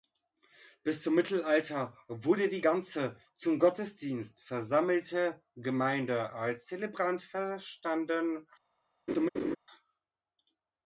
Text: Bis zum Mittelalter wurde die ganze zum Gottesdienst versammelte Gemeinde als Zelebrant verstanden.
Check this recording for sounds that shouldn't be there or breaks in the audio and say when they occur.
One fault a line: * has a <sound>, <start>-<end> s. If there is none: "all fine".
* has a laugh, 9.1-9.6 s